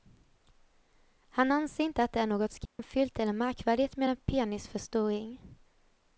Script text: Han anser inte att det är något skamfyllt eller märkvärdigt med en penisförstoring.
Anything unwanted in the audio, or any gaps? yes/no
yes